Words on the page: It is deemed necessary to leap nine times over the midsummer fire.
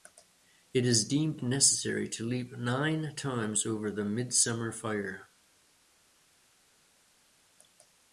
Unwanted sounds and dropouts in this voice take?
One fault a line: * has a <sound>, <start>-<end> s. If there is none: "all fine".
all fine